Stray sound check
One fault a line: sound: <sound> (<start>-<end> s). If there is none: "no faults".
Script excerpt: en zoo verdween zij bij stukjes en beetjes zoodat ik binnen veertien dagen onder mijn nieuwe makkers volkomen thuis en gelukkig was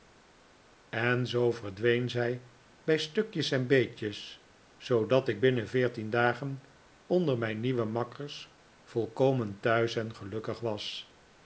no faults